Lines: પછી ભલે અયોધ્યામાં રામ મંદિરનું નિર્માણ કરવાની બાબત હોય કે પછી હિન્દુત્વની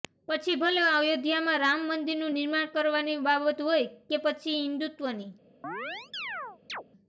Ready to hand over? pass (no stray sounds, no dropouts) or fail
fail